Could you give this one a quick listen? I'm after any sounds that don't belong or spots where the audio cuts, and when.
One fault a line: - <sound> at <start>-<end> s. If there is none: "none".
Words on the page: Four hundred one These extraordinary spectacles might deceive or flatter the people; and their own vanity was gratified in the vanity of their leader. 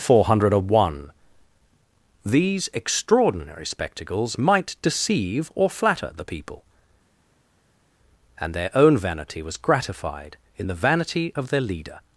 none